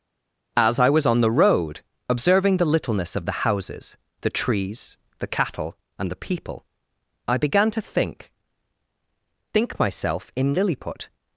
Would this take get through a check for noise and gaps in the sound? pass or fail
pass